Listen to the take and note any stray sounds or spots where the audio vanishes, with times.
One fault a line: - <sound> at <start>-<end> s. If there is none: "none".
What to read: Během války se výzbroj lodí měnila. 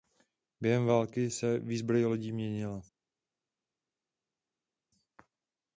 none